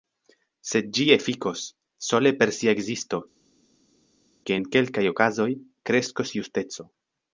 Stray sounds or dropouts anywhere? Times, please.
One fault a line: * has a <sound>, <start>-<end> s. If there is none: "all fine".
all fine